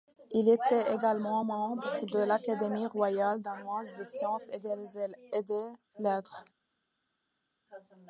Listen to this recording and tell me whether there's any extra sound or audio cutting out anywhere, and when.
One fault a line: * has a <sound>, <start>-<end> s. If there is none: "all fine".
all fine